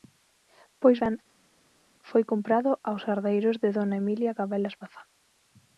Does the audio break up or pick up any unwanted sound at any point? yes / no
no